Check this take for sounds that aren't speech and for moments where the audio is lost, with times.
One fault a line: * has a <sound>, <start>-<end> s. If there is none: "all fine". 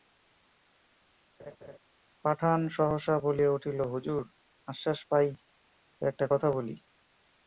* has a laugh, 1.4-1.8 s